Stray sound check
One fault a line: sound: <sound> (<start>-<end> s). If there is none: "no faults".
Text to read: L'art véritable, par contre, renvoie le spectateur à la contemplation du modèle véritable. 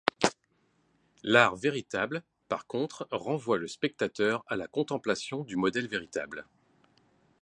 no faults